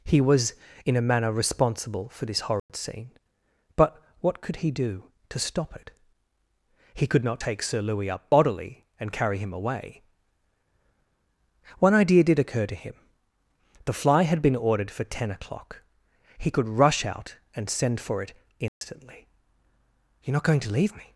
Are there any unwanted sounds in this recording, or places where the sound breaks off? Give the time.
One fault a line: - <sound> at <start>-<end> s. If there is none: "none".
- dropout at 2.6-2.7 s
- dropout at 18.7-18.8 s